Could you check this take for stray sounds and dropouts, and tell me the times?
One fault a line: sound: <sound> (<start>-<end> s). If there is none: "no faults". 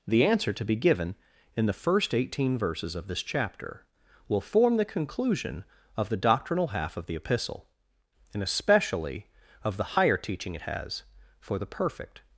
no faults